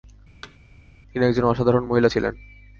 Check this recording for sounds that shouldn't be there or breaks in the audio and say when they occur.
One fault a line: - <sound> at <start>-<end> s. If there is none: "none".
- thud at 0.4-0.6 s